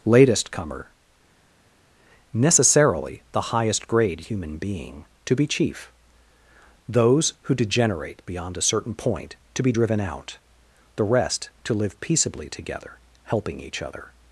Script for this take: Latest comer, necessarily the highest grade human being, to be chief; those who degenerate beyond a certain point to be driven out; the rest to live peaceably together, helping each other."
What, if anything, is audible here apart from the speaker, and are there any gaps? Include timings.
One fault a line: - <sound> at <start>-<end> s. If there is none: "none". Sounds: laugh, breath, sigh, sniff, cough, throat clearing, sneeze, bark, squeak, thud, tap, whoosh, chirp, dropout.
none